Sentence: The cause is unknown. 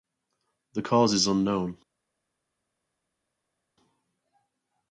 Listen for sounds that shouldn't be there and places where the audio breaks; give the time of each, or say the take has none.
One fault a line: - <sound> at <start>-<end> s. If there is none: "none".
none